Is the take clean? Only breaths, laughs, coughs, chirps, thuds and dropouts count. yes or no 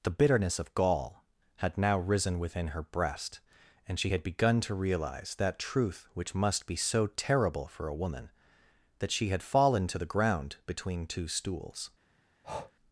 no